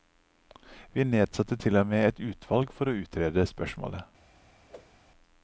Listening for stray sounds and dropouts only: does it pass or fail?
fail